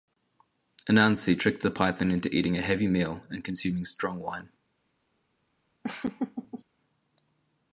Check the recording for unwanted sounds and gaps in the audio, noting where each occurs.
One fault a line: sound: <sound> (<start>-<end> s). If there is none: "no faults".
sound: laugh (5.8-6.6 s)